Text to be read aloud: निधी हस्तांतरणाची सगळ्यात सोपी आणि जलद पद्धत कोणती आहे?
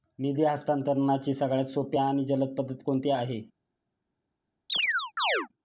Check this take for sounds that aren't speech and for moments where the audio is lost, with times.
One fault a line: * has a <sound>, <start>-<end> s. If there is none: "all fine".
* has a chirp, 4.7-5.5 s